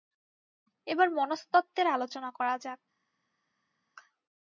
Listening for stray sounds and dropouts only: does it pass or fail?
pass